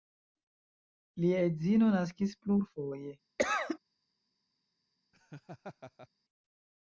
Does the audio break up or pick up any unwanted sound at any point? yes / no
yes